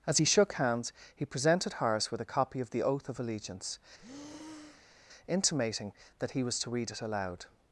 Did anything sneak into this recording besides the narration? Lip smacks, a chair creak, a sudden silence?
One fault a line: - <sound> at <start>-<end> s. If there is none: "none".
- breath at 4.0-5.0 s